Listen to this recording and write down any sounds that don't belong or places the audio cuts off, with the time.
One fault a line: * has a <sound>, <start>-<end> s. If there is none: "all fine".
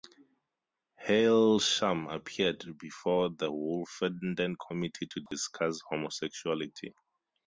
* has a dropout, 5.3-5.3 s